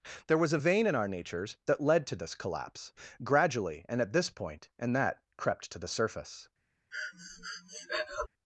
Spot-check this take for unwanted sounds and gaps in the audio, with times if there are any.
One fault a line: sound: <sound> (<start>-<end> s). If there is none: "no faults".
sound: breath (6.9-8.3 s)